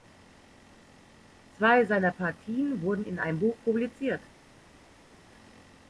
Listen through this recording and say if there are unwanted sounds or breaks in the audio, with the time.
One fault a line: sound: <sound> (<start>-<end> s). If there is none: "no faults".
no faults